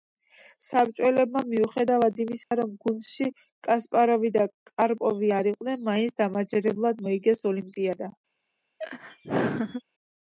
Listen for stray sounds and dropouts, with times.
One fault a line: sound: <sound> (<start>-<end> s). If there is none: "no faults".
sound: dropout (2.4-2.5 s)
sound: laugh (8.8-9.8 s)